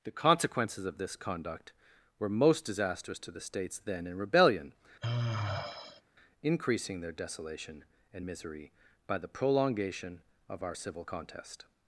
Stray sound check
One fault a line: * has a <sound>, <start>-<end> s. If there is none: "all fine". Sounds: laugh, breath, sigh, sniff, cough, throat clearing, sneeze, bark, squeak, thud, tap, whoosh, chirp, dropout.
* has a sigh, 5.0-6.0 s